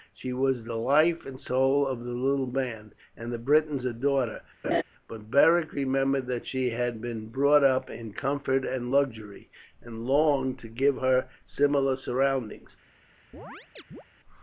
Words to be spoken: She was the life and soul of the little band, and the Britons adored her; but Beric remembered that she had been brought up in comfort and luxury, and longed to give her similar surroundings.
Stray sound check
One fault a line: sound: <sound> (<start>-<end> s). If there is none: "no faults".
sound: laugh (4.6-4.8 s)
sound: chirp (13.3-14.0 s)